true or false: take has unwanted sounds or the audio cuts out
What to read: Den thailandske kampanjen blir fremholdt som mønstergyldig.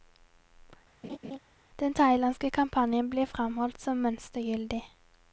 true